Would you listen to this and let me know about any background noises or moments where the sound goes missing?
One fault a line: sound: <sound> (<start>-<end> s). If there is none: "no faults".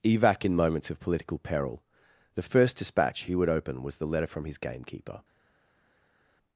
no faults